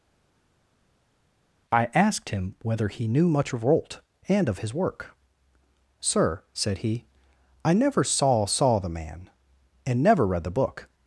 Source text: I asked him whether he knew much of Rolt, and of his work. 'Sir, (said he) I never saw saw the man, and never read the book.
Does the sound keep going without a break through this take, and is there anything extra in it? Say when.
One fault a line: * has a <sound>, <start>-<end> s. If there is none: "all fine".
all fine